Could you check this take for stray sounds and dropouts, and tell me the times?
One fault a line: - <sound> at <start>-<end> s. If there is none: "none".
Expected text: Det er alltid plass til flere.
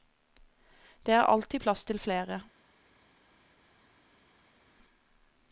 none